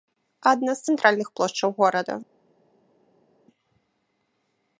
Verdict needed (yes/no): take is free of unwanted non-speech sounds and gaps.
yes